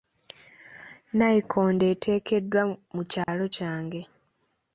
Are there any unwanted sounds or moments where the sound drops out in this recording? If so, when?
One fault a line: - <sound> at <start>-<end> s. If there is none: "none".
- dropout at 3.2-3.3 s